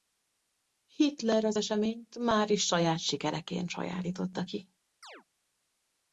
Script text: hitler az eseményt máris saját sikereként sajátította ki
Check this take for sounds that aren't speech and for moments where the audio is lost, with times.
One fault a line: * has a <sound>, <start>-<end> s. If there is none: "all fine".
* has a chirp, 5.0-5.2 s